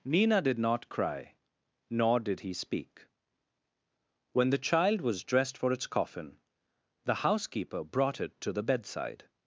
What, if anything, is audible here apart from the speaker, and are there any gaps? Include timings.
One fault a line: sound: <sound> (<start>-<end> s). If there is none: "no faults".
no faults